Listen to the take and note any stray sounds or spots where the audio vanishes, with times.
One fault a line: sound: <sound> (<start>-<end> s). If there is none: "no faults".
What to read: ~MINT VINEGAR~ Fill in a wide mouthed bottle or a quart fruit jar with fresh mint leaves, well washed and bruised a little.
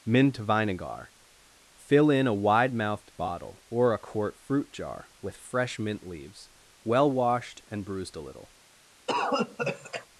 sound: cough (9.1-10.1 s)